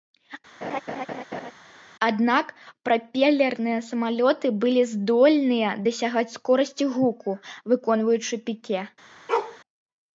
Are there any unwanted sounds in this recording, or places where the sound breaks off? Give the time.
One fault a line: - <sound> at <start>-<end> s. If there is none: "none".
- laugh at 0.6-1.5 s
- bark at 9.3-9.6 s